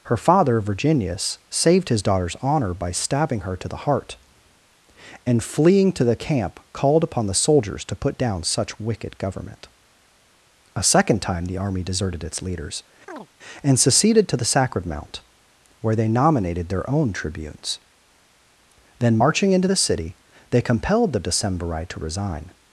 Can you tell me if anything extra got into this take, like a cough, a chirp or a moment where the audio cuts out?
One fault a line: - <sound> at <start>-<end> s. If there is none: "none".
- chirp at 13.1-13.3 s